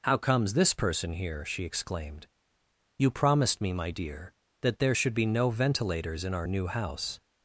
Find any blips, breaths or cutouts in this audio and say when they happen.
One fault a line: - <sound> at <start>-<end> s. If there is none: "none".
none